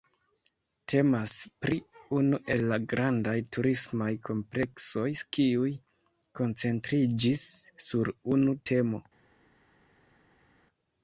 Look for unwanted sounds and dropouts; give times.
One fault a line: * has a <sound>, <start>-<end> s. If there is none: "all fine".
all fine